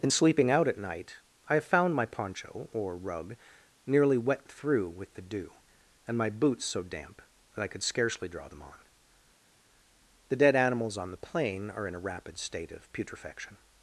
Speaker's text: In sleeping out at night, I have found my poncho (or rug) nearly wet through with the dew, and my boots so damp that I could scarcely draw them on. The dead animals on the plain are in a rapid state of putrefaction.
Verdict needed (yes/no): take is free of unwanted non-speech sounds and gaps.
yes